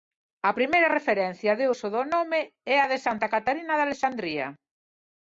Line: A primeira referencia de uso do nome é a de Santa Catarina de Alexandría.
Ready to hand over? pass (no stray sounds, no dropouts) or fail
pass